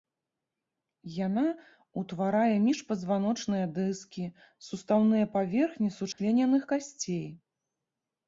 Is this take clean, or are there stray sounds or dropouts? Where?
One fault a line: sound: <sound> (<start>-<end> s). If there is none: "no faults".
sound: dropout (6.1-6.2 s)